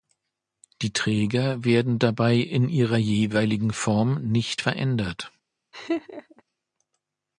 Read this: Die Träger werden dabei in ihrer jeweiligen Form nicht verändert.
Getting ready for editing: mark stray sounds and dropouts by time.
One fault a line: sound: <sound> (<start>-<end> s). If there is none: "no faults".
sound: laugh (5.7-6.4 s)